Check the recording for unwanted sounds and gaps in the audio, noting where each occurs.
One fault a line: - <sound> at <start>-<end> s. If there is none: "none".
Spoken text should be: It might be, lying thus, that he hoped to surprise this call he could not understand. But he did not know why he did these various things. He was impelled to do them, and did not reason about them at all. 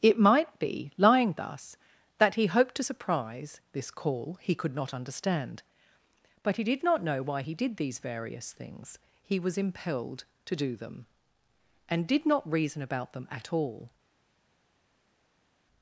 none